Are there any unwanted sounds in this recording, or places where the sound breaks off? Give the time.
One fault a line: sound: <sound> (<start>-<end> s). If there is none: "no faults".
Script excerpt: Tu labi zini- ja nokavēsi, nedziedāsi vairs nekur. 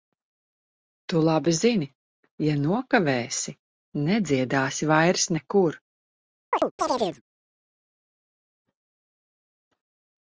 sound: chirp (6.5-7.2 s)